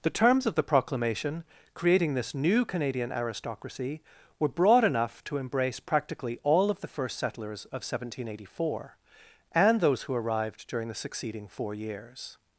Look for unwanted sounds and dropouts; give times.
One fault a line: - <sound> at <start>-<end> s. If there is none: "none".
none